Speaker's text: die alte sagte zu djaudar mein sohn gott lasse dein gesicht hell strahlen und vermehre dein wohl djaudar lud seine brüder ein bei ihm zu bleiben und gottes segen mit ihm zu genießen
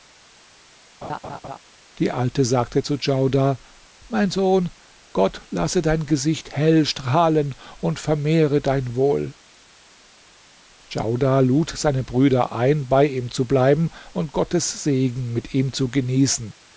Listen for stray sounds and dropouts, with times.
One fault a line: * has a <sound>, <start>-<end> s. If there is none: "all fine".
* has a laugh, 1.0-1.6 s